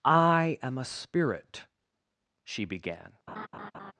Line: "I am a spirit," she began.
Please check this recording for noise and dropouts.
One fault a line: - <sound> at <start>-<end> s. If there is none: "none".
- laugh at 3.3-3.9 s